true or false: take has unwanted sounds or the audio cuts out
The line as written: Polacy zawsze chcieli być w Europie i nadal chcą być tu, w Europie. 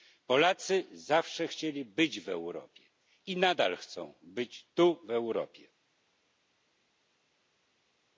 false